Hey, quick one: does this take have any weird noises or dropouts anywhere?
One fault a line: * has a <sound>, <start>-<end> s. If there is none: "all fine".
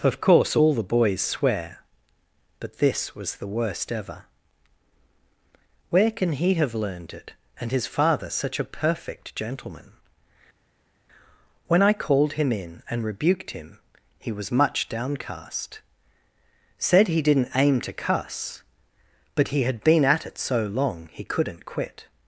all fine